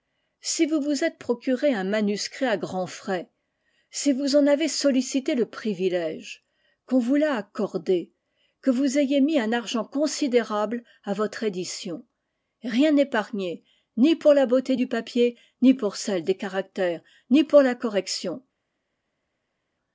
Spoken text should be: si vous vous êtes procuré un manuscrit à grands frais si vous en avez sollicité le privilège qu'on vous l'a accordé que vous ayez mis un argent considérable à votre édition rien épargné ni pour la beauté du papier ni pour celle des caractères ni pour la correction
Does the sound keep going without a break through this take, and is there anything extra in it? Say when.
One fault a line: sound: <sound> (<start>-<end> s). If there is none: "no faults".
no faults